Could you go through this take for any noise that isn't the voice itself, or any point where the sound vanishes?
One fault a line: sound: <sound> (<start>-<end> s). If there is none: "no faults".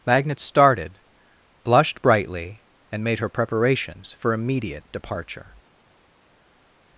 no faults